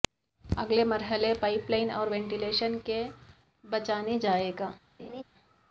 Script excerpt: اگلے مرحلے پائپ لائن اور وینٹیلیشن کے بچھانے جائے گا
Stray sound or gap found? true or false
true